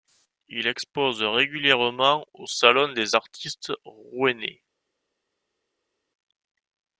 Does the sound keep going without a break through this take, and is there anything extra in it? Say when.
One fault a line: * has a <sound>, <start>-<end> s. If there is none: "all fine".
all fine